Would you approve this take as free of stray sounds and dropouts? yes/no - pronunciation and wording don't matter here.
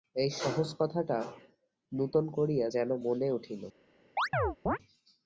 no